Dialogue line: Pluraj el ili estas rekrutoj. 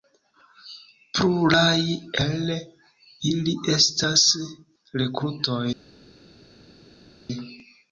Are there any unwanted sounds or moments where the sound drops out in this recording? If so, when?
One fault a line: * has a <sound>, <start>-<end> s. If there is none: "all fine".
all fine